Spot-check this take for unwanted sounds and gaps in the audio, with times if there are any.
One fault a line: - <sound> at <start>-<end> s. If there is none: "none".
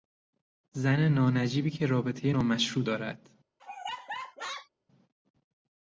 - laugh at 3.6-4.7 s